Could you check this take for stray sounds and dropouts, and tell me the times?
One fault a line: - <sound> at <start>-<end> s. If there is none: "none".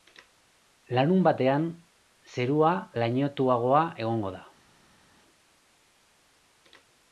none